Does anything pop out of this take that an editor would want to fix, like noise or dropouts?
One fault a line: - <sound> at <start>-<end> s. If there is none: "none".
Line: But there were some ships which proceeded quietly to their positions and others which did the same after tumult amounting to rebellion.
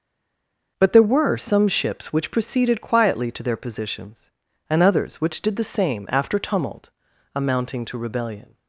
none